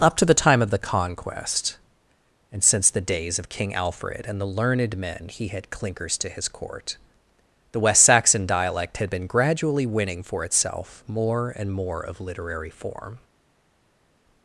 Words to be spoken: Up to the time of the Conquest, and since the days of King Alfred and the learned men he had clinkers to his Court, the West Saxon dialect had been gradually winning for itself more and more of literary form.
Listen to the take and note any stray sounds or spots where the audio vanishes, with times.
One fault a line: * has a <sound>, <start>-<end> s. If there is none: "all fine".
all fine